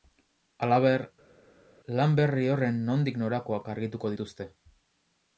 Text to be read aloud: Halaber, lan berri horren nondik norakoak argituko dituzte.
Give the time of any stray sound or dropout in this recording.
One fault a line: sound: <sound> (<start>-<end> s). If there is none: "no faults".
no faults